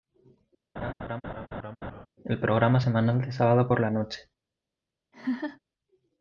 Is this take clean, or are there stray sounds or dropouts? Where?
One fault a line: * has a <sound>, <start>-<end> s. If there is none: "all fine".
* has a laugh, 0.8-2.1 s
* has a laugh, 5.1-5.6 s